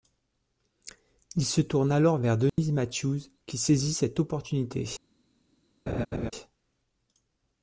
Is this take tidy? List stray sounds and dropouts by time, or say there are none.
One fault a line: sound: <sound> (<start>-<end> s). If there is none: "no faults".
sound: dropout (2.5-2.6 s)
sound: laugh (5.9-6.3 s)